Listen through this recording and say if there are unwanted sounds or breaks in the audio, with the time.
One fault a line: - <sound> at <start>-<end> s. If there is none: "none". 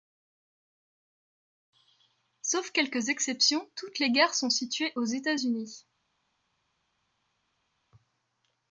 none